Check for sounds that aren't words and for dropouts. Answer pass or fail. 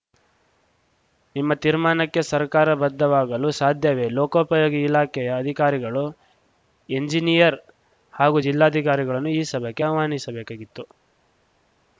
pass